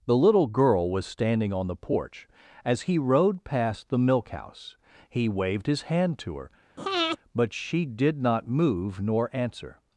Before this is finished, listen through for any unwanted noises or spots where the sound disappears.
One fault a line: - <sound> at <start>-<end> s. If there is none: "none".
- breath at 6.8-7.2 s